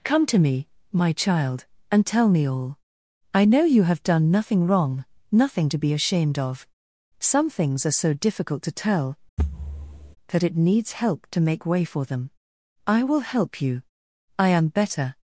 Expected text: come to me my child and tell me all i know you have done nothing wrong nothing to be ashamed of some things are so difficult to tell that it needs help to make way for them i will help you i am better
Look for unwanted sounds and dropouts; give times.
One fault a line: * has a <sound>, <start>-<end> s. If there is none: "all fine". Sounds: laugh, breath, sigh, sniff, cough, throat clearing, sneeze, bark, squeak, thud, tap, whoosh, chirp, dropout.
* has a thud, 9.4-10.2 s